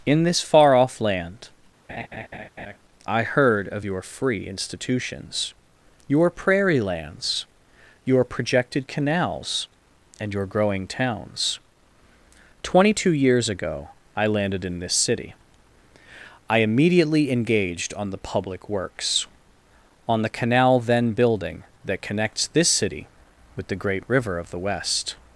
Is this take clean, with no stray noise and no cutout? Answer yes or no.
no